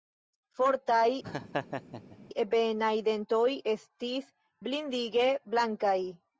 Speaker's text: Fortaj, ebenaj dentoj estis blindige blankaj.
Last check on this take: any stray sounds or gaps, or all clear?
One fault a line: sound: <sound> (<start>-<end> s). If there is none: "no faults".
sound: laugh (1.2-2.2 s)